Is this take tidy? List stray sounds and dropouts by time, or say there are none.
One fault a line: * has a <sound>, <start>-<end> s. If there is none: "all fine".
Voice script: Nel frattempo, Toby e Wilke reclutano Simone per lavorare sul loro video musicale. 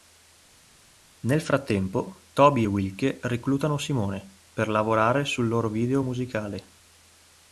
all fine